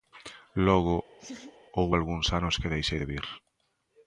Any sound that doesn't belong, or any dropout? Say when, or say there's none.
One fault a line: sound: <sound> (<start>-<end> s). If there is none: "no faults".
sound: laugh (1.2-1.6 s)